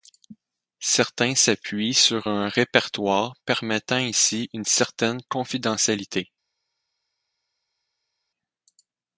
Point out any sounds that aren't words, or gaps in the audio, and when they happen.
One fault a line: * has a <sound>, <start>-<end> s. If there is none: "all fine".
all fine